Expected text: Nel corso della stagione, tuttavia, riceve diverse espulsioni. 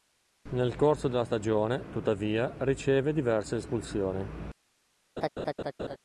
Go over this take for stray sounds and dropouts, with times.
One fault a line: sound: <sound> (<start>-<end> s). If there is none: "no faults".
sound: laugh (5.2-6.0 s)